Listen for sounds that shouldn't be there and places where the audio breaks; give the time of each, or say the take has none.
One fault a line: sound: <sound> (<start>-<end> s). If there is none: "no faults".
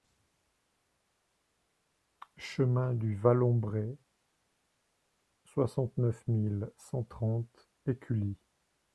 no faults